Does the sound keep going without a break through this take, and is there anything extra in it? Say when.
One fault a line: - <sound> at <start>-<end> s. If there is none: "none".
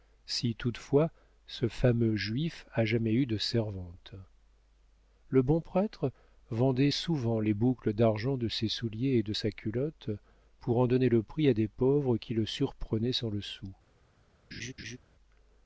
- laugh at 14.5-15.0 s